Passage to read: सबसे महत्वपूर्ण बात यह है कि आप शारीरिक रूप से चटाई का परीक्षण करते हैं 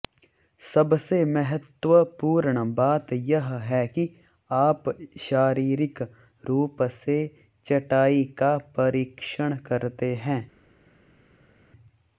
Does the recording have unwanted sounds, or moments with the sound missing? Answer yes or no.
no